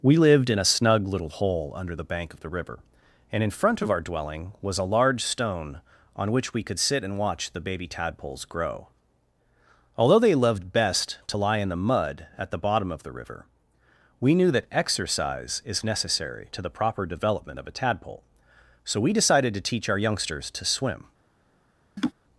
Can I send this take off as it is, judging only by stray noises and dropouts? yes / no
no